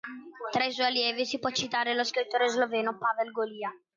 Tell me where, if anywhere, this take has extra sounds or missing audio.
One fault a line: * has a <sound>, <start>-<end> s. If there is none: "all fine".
all fine